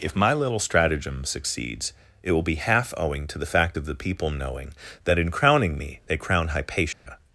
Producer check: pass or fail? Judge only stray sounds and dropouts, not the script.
fail